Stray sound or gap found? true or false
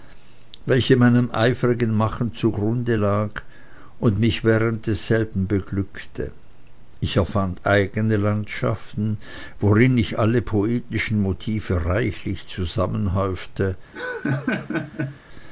true